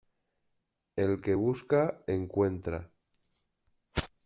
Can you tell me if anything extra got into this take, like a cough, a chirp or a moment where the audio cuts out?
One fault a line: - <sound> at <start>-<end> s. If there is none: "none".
none